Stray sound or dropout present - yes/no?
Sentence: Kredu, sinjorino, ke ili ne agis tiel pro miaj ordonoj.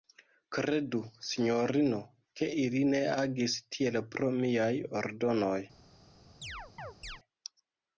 yes